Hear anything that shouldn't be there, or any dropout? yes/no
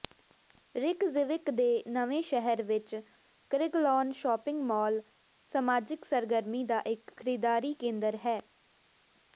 no